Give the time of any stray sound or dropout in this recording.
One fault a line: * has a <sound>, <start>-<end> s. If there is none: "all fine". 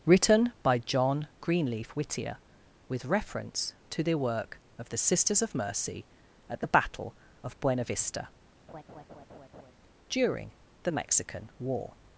* has a laugh, 8.7-9.7 s